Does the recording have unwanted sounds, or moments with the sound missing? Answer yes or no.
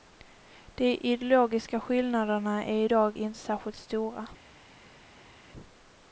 no